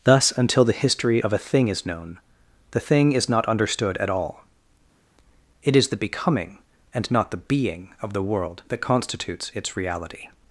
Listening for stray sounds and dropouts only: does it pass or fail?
pass